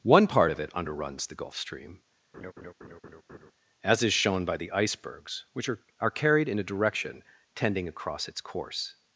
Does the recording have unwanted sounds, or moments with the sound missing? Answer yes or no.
yes